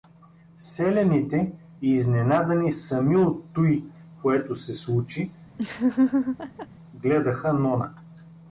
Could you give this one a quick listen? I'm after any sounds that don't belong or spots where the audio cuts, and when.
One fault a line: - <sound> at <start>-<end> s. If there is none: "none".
- laugh at 5.6-6.7 s